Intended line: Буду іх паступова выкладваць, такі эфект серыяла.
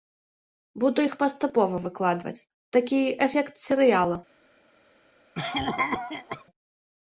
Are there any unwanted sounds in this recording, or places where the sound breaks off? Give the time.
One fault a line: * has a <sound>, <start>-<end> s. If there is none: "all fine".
* has a cough, 5.3-6.4 s